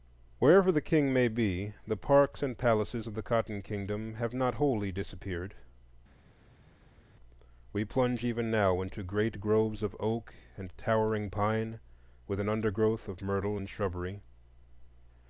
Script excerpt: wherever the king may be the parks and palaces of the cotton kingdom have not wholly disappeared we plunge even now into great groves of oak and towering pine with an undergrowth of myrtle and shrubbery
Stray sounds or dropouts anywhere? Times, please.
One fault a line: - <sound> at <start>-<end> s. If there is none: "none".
none